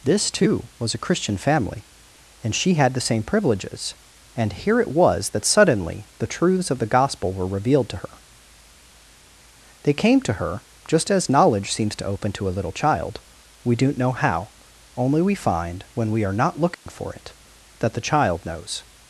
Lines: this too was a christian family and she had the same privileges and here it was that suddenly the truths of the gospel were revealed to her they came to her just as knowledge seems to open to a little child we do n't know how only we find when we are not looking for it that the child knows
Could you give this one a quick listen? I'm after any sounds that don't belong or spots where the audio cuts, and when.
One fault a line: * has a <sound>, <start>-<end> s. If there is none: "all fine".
* has a dropout, 16.7-16.9 s